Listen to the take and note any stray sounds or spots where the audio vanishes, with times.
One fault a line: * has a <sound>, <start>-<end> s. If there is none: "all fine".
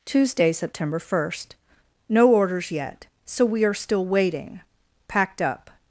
all fine